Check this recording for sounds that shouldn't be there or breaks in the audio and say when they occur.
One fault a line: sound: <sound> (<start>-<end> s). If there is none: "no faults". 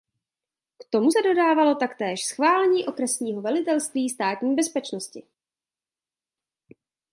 no faults